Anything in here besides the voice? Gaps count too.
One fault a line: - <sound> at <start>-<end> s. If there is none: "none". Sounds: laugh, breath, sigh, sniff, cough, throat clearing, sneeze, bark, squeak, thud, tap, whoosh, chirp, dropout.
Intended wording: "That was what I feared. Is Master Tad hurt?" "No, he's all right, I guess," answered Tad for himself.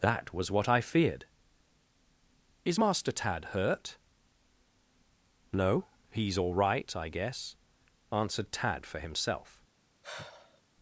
- sigh at 10.0-10.6 s